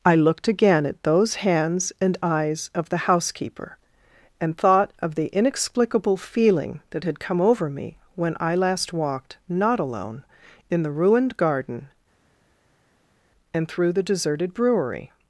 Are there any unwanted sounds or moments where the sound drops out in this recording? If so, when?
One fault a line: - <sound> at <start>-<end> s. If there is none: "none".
none